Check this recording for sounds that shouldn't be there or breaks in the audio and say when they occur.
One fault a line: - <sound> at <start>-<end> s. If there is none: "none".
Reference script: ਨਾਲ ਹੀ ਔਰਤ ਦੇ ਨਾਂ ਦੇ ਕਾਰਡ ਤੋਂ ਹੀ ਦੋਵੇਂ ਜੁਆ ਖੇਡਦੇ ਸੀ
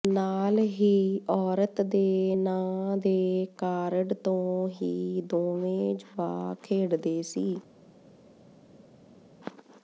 none